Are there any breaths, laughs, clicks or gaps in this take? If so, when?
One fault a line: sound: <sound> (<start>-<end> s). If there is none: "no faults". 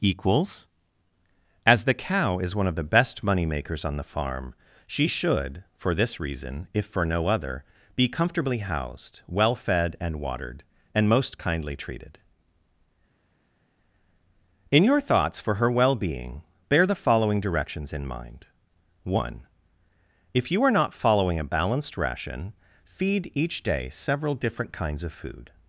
no faults